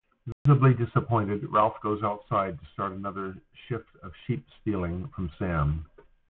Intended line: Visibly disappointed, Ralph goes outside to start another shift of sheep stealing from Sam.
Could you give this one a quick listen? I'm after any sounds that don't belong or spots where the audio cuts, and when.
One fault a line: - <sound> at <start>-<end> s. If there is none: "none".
- dropout at 0.3-0.5 s